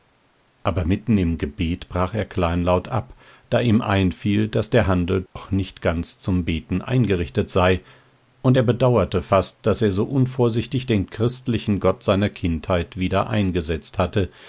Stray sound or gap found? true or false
true